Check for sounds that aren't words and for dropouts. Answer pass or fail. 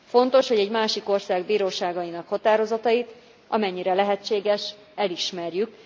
pass